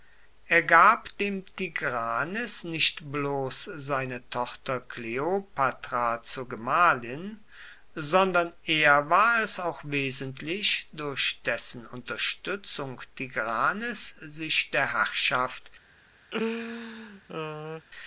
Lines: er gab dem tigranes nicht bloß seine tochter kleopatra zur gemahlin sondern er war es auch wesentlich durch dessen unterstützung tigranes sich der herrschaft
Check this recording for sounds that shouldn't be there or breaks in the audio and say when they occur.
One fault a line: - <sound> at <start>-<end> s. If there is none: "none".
- laugh at 16.3-17.9 s